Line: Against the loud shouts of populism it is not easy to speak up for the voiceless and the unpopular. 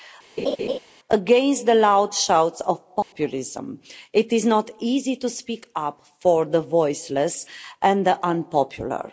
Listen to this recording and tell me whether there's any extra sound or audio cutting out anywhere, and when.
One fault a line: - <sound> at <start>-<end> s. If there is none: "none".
- laugh at 0.4-0.8 s
- dropout at 3.0-3.1 s